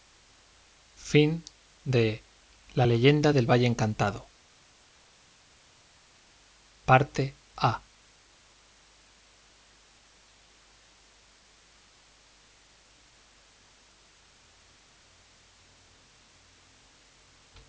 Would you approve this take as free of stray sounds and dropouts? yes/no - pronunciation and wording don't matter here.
yes